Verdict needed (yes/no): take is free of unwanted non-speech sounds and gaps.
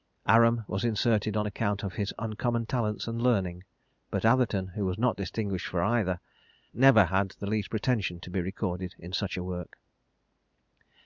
yes